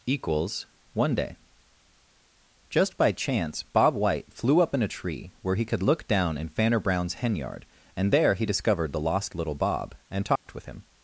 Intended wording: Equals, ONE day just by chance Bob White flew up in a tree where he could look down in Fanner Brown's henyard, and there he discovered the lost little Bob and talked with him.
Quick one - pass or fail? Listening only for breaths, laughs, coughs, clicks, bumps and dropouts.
fail